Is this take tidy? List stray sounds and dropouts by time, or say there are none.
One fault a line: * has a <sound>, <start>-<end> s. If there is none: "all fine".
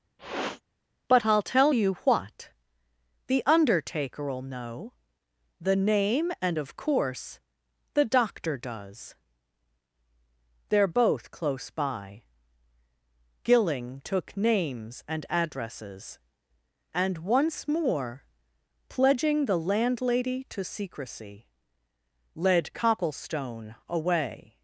* has a sniff, 0.2-0.6 s